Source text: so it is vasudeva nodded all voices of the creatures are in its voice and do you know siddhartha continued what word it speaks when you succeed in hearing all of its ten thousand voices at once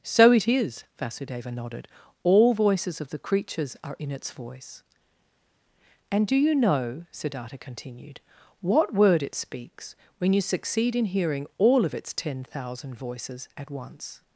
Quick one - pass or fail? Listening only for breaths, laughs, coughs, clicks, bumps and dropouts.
pass